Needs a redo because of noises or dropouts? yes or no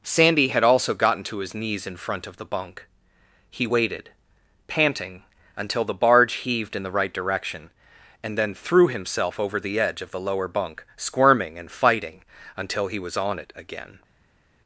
no